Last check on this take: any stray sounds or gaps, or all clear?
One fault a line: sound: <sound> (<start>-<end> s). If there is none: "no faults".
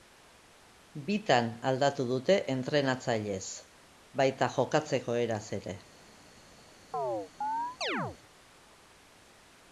sound: chirp (6.9-8.2 s)